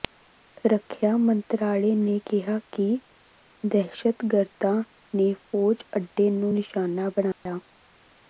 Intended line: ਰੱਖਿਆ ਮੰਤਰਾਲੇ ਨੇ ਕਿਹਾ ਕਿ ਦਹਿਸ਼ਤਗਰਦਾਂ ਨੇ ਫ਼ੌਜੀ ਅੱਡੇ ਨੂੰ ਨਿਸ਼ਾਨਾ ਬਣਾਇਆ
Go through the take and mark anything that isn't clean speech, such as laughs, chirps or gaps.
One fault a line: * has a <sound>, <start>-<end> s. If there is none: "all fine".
* has a dropout, 7.3-7.5 s